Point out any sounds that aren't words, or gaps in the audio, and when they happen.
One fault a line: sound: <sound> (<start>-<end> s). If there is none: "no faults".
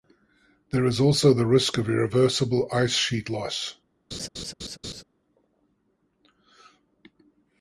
sound: laugh (4.1-5.0 s)